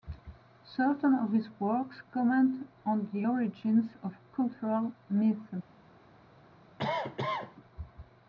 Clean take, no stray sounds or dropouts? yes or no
no